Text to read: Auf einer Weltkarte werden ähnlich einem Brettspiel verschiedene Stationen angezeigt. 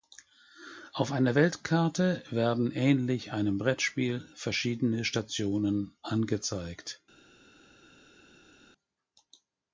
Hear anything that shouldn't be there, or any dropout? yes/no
no